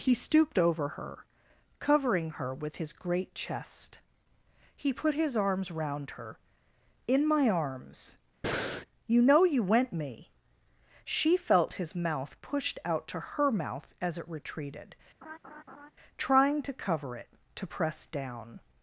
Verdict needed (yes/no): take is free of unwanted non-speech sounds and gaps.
no